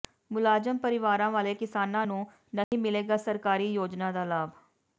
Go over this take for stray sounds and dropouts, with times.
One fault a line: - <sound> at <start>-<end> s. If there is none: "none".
- dropout at 2.6-2.7 s